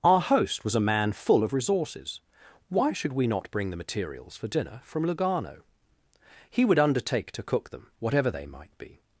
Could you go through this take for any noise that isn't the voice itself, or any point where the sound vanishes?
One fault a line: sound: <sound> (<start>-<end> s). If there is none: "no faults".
no faults